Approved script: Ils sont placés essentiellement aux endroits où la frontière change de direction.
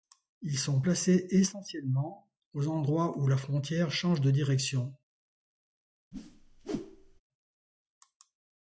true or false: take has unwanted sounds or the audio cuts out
true